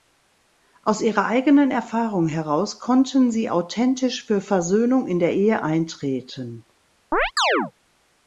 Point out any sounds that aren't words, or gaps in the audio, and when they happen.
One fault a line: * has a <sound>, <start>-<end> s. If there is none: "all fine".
* has a chirp, 7.1-7.7 s